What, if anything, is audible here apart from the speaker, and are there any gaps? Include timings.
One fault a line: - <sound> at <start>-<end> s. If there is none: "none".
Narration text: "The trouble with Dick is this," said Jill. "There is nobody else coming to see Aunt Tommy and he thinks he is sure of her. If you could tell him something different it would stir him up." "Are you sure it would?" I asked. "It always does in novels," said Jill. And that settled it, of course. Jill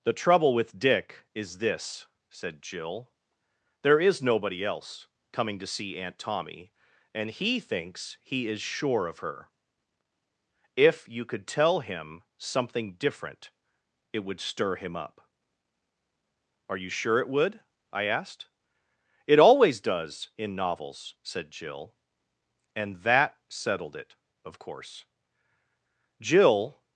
none